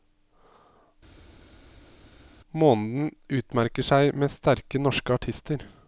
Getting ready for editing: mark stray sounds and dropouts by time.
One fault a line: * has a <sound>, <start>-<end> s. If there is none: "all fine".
all fine